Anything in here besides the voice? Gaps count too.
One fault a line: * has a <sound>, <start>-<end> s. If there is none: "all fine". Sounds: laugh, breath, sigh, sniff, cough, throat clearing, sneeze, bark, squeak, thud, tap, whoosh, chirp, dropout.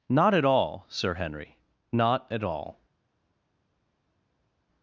all fine